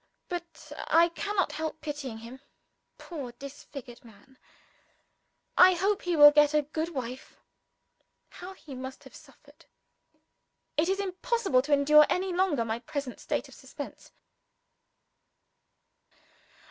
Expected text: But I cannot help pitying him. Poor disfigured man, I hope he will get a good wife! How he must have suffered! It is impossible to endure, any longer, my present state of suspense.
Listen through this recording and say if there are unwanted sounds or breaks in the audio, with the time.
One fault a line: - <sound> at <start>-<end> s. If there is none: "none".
none